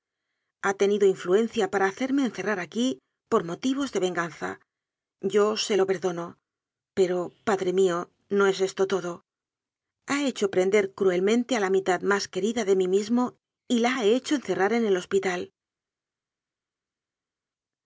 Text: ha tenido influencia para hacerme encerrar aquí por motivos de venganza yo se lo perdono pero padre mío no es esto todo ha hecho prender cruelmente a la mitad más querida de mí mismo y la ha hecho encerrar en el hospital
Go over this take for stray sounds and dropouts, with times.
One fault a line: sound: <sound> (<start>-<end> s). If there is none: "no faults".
no faults